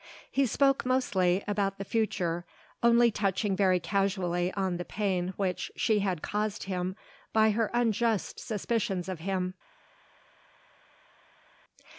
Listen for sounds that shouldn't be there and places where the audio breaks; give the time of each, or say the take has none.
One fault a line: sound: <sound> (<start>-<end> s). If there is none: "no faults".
no faults